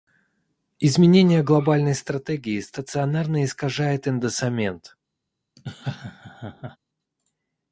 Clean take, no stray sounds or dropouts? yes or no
no